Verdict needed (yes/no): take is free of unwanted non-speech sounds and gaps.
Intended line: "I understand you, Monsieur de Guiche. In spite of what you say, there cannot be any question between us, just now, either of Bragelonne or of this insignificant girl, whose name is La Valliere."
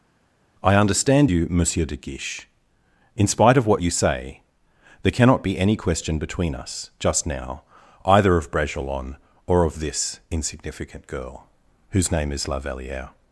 yes